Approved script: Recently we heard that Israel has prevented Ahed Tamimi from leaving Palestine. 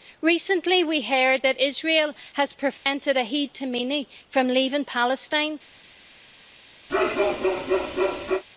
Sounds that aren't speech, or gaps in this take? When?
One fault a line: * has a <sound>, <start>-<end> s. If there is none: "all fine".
* has a dropout, 2.8-2.9 s
* has a bark, 6.9-8.4 s